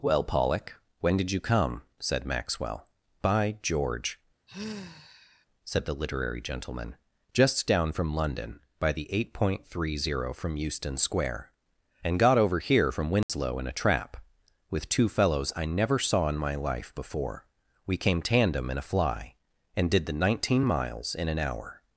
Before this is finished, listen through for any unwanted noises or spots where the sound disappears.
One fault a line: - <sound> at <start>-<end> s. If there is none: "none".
- sigh at 4.5-5.5 s
- dropout at 13.2-13.3 s